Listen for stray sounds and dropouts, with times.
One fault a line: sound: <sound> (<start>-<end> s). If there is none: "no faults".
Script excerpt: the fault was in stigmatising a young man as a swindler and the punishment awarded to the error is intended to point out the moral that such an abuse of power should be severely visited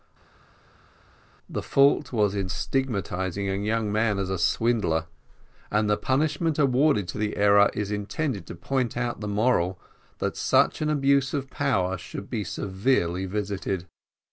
no faults